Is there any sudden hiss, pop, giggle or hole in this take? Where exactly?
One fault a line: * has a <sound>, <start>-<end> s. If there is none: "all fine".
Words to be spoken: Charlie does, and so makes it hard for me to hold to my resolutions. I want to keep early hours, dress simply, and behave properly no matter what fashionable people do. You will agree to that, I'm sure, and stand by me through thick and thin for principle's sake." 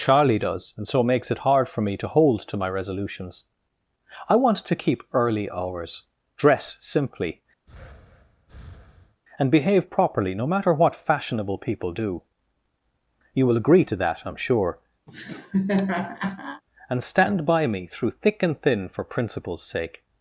* has a breath, 7.7-9.2 s
* has a laugh, 15.1-16.6 s